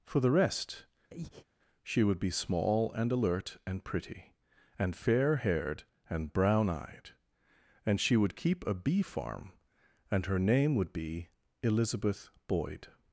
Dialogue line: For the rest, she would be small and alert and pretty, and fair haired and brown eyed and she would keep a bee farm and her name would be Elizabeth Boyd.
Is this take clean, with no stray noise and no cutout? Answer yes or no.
no